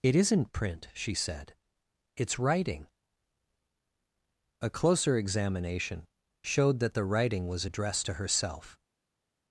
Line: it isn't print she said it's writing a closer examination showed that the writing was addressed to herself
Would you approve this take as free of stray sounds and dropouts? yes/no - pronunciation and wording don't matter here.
yes